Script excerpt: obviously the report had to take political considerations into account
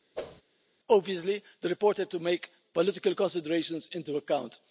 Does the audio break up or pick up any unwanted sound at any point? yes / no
yes